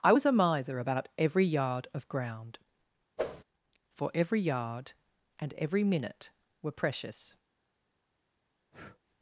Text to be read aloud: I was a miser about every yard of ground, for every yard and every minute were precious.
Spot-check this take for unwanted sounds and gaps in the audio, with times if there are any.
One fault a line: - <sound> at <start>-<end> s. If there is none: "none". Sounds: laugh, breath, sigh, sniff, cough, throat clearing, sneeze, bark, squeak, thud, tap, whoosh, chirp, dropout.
- whoosh at 3.2-3.4 s
- breath at 8.7-9.0 s